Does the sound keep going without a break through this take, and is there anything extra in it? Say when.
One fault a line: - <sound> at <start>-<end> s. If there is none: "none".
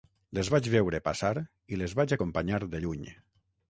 none